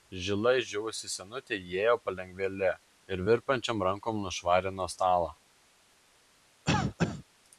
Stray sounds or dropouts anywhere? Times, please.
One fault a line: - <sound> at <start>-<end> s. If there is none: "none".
- cough at 6.7-7.2 s